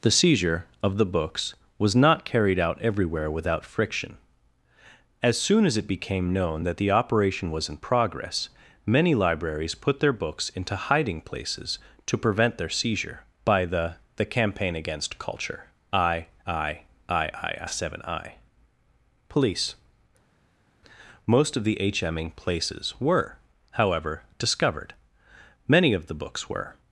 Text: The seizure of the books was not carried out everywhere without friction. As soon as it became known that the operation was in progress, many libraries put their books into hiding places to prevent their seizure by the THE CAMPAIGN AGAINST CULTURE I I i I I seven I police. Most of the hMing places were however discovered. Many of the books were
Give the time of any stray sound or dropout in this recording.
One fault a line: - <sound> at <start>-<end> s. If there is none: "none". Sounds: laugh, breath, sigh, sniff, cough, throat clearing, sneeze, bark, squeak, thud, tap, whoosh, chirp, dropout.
none